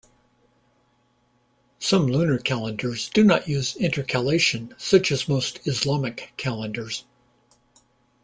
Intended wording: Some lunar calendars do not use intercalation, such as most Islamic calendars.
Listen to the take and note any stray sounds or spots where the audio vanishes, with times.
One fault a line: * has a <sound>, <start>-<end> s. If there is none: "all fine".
all fine